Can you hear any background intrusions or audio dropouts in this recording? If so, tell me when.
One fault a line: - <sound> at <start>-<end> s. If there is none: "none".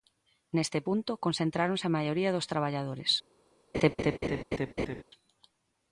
- laugh at 3.7-5.0 s